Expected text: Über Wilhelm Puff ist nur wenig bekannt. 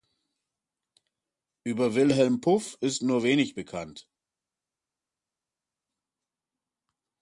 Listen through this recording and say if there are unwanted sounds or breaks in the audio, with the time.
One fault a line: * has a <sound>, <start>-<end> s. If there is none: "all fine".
all fine